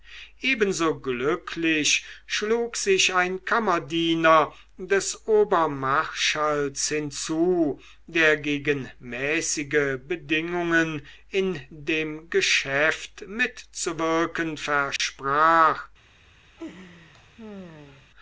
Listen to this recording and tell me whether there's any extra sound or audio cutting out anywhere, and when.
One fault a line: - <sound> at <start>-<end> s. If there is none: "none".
- dropout at 15.0-15.0 s
- laugh at 16.6-18.1 s